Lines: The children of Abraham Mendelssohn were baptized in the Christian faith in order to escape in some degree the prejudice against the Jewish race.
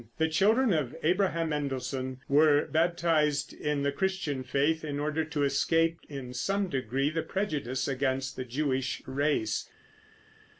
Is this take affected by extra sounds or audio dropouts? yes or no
no